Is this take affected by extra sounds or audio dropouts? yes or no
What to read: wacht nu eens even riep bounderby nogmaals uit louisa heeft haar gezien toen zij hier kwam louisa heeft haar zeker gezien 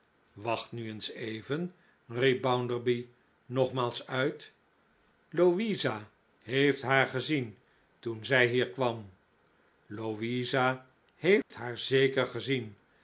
yes